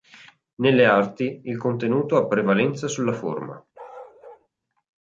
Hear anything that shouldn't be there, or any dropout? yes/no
yes